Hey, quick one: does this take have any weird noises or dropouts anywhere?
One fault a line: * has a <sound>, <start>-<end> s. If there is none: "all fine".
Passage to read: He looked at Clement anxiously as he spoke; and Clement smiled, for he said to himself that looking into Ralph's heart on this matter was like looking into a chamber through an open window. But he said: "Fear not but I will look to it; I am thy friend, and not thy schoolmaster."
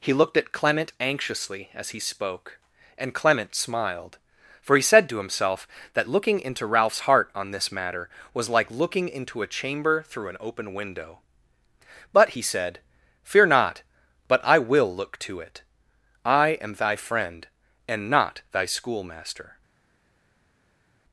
all fine